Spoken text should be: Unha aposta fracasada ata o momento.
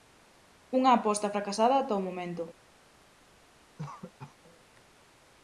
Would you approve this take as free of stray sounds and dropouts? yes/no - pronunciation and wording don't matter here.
no